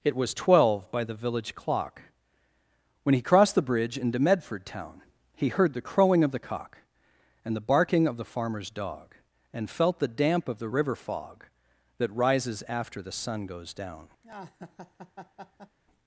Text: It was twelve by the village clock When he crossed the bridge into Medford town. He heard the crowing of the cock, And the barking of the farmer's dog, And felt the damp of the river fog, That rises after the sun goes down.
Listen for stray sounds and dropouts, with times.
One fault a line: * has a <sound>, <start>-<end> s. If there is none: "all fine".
* has a laugh, 14.2-15.8 s